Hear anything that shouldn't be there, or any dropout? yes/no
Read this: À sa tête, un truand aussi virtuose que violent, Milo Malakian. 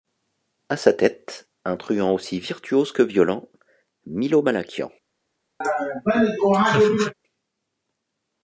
yes